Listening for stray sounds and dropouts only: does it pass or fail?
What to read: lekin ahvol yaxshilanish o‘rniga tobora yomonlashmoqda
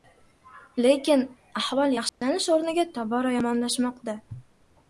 fail